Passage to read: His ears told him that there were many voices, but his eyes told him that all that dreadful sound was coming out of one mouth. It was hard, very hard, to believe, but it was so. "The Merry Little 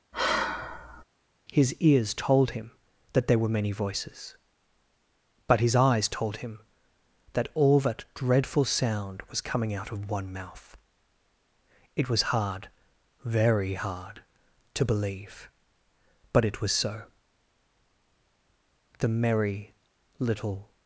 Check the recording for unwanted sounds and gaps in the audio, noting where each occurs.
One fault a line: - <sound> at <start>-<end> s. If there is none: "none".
- sigh at 0.1-1.0 s